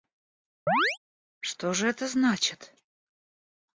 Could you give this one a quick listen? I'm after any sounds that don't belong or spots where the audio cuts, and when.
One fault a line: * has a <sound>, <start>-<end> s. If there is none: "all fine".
* has a chirp, 0.7-1.0 s